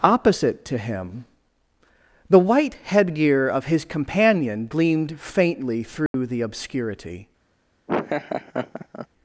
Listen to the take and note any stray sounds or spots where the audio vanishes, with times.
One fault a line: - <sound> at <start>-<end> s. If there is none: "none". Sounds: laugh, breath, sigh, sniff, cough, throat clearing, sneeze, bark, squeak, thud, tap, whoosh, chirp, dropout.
- dropout at 6.1-6.1 s
- laugh at 7.9-9.1 s